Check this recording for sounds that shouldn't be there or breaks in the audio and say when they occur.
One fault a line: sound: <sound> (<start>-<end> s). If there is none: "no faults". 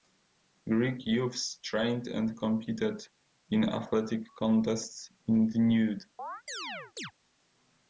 sound: chirp (6.2-7.1 s)